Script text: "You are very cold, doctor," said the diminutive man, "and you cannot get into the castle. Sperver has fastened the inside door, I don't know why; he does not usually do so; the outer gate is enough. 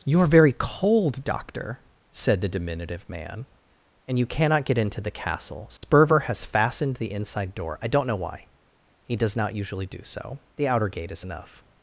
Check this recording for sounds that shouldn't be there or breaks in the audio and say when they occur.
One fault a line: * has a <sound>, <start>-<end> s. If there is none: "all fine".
* has a dropout, 5.8-5.8 s